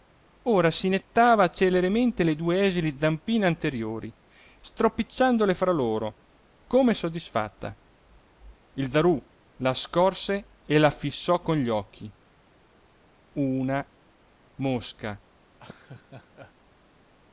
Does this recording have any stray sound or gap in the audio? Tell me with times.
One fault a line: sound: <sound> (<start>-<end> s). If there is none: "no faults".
sound: laugh (15.5-16.5 s)